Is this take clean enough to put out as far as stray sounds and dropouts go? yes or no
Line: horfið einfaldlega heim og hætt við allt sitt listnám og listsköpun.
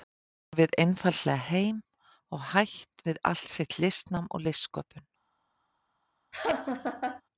no